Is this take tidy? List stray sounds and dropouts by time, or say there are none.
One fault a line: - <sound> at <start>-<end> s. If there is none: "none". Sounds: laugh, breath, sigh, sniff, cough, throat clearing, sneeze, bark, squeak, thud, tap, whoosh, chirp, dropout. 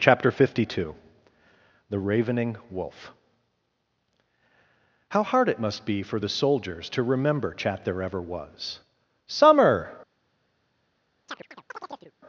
- chirp at 11.3-12.1 s